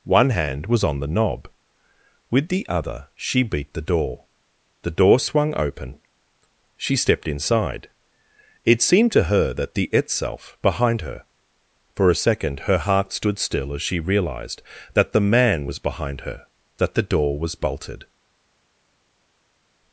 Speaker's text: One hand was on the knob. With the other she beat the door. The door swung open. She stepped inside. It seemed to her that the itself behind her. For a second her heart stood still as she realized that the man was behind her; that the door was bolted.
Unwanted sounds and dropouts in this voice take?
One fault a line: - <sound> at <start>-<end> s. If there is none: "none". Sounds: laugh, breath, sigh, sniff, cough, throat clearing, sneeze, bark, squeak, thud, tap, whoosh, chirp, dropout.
none